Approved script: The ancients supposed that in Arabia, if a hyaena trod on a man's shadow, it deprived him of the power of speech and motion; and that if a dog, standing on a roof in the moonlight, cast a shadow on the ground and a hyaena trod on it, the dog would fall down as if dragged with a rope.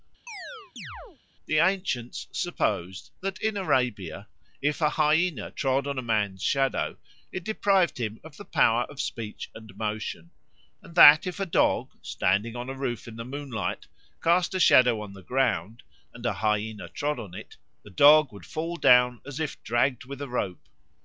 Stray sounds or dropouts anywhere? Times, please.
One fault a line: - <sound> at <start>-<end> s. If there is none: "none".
- chirp at 0.3-1.2 s